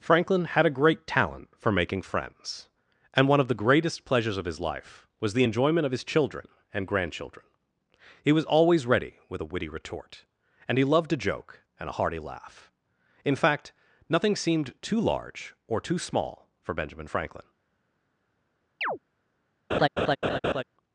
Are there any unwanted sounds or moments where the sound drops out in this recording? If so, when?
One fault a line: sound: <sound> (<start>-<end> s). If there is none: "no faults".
sound: chirp (18.8-19.0 s)
sound: laugh (19.7-20.6 s)